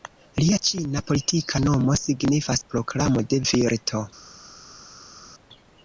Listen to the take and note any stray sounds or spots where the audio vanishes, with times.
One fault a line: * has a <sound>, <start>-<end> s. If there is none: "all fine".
all fine